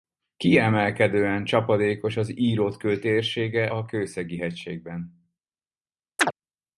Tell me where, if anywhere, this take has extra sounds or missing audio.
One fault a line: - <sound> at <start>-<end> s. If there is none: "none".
- chirp at 6.2-6.3 s